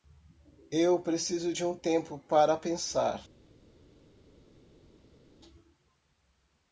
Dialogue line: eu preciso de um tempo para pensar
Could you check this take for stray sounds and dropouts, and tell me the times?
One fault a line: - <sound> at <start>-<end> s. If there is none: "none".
none